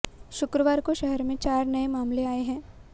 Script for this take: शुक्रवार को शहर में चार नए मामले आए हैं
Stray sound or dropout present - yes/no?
no